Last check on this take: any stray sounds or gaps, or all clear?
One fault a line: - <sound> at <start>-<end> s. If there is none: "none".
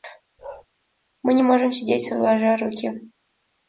- bark at 0.4-0.7 s